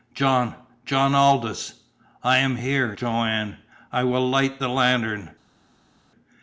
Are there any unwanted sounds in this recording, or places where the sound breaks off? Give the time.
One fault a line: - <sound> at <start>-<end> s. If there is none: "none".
none